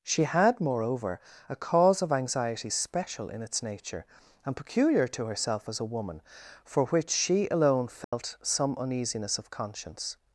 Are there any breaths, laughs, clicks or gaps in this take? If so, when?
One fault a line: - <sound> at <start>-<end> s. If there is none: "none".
- dropout at 8.0-8.1 s